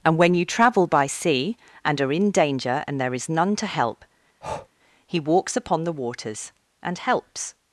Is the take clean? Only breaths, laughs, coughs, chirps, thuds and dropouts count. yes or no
no